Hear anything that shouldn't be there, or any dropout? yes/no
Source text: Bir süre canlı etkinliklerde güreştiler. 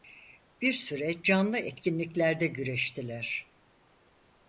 no